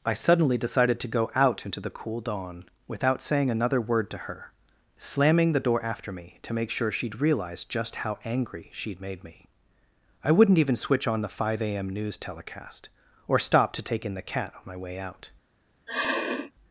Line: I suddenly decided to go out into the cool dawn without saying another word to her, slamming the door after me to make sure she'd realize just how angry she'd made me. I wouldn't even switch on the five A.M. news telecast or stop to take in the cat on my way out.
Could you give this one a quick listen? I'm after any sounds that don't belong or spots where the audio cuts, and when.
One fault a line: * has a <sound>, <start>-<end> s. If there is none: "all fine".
* has a sniff, 15.9-16.5 s